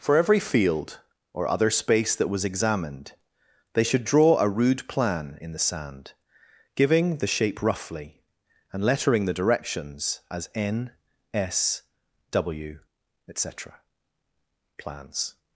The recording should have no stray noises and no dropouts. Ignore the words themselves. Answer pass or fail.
pass